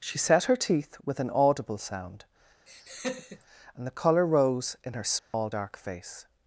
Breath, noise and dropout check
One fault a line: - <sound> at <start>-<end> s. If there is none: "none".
- laugh at 2.7-3.4 s
- dropout at 5.2-5.3 s